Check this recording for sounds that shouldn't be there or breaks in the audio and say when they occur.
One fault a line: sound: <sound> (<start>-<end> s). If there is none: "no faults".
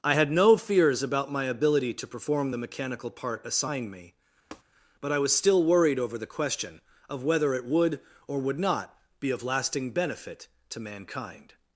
sound: tap (4.5-4.6 s)